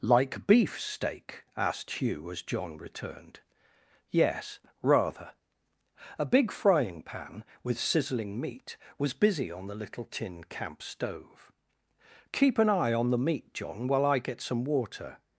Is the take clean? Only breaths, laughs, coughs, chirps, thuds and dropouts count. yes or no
yes